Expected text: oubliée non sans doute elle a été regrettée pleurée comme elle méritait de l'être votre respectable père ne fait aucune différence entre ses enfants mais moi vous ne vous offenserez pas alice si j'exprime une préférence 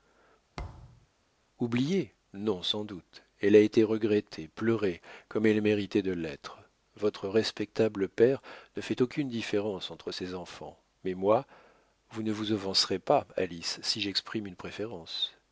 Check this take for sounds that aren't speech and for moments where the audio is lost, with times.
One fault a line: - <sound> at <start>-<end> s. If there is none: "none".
- thud at 0.6-1.1 s